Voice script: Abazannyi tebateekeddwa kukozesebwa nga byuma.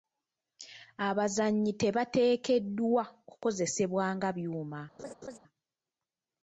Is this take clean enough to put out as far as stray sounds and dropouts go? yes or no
no